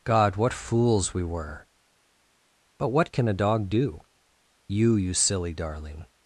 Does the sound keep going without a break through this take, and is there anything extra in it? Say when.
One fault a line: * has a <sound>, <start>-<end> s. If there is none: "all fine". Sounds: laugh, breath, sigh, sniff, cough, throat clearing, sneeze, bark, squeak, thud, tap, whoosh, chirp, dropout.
all fine